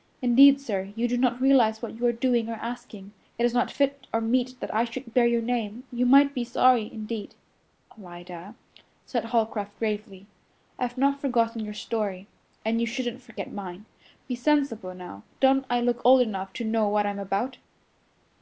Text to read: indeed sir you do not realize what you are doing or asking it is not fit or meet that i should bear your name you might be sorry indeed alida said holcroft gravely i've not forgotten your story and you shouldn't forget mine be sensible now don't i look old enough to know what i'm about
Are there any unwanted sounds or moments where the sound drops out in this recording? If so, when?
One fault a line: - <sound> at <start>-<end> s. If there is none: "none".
none